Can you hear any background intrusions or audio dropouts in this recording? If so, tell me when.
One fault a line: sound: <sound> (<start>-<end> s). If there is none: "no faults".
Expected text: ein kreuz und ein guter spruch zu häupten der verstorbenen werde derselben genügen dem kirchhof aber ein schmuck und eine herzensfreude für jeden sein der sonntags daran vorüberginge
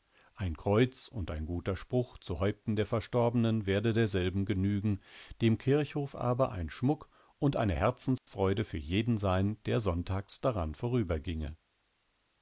sound: dropout (8.2-8.3 s)